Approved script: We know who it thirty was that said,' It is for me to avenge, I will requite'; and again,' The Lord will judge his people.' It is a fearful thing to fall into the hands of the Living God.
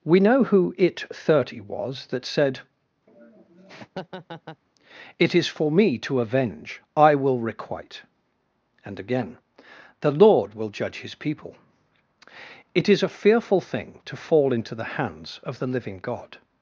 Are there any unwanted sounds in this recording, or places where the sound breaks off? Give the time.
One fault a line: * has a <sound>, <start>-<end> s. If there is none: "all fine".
* has a laugh, 3.1-4.6 s